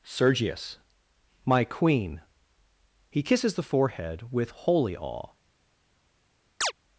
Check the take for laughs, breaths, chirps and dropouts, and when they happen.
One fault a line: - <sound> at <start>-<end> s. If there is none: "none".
- chirp at 6.6-6.7 s